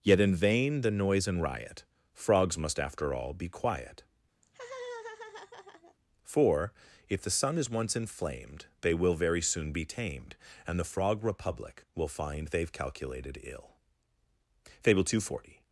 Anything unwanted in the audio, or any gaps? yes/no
yes